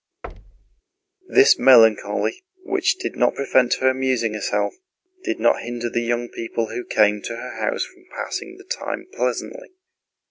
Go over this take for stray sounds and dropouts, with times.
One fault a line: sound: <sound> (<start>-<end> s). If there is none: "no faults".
sound: thud (0.2-0.8 s)